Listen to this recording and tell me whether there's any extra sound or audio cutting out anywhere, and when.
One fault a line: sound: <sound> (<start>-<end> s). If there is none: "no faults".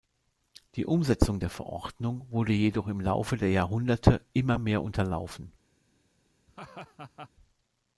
sound: laugh (6.5-7.3 s)